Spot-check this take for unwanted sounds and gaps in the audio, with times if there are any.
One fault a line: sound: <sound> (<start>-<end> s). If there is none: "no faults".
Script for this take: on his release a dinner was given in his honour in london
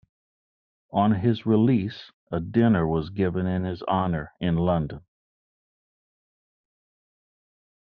no faults